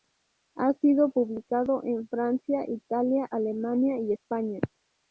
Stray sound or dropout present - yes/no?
no